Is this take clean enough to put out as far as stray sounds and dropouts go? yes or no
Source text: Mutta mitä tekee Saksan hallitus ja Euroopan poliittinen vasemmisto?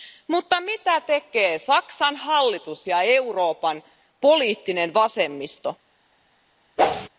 no